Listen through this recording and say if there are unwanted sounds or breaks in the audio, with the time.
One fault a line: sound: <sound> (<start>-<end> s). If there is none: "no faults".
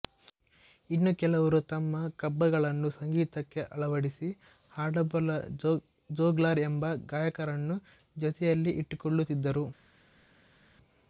no faults